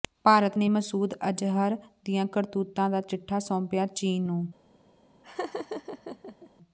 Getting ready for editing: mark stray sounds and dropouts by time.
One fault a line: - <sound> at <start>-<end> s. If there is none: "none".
- laugh at 5.2-6.5 s